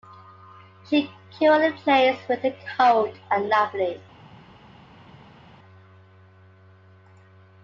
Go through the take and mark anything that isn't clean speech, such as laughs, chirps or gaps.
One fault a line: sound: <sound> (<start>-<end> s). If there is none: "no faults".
no faults